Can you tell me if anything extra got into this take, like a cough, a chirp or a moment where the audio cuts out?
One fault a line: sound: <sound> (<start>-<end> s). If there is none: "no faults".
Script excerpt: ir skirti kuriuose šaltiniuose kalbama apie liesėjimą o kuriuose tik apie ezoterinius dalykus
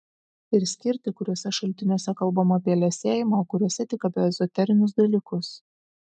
no faults